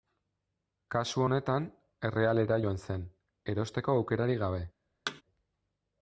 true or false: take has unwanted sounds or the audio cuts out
true